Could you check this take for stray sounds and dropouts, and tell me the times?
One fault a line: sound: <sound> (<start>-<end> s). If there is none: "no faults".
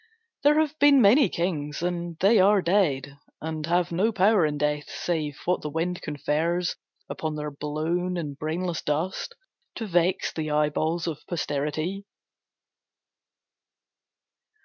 no faults